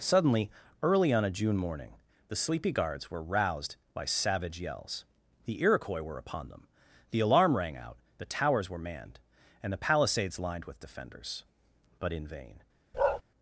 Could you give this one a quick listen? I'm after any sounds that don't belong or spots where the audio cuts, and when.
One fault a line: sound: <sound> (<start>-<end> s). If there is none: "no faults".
sound: bark (12.9-13.2 s)